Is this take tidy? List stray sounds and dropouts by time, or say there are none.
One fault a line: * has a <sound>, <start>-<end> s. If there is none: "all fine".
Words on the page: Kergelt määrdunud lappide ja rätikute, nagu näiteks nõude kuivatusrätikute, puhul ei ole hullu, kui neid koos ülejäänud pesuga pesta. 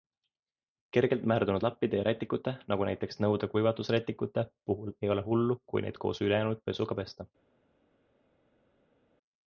all fine